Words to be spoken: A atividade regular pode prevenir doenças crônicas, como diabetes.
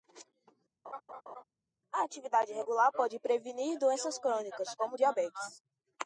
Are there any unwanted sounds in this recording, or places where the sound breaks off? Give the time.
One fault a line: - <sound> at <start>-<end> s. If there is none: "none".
- laugh at 0.8-1.4 s